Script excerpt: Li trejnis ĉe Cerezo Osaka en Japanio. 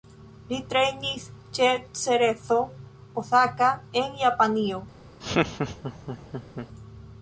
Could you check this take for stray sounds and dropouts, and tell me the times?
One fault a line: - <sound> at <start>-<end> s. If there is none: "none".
- laugh at 5.2-6.7 s